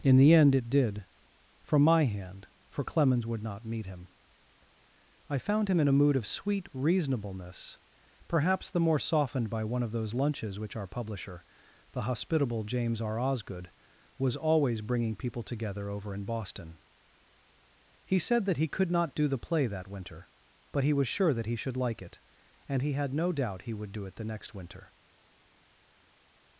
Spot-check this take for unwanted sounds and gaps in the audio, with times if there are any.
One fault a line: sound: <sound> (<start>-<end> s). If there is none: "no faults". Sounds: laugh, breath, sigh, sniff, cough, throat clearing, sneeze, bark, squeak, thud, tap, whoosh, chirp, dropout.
no faults